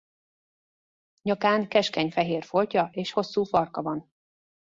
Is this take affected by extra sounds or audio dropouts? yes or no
no